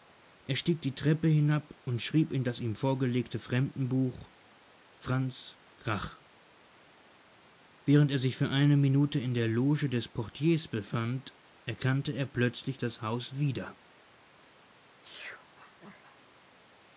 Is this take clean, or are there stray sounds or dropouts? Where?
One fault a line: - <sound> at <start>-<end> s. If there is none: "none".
- sneeze at 15.0-16.2 s